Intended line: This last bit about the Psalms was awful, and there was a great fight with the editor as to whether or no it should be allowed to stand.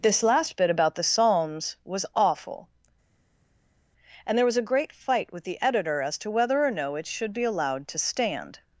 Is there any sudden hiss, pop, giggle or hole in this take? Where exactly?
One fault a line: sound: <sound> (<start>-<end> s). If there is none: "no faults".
no faults